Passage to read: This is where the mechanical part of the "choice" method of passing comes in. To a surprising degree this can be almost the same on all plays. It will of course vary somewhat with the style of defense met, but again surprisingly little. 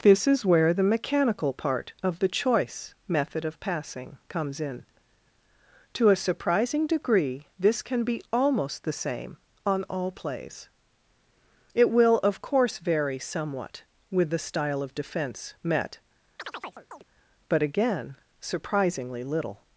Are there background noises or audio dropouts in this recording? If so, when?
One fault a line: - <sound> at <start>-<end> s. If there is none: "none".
- chirp at 16.4-17.0 s